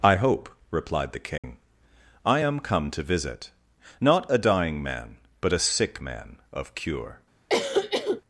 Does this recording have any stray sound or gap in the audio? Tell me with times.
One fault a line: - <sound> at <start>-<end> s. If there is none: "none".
- dropout at 1.4-1.4 s
- cough at 7.5-8.2 s